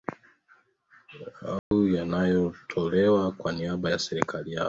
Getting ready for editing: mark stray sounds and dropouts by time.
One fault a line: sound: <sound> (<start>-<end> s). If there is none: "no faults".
sound: dropout (1.6-1.7 s)